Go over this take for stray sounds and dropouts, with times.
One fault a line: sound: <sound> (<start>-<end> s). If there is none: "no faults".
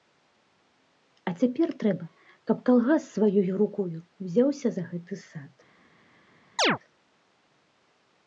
sound: chirp (6.6-6.8 s)